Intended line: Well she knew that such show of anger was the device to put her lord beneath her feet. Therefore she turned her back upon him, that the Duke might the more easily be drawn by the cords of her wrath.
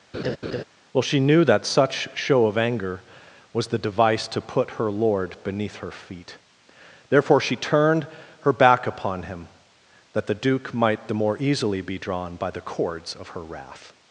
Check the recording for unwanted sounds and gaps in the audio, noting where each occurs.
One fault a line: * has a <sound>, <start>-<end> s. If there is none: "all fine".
* has a laugh, 0.1-0.6 s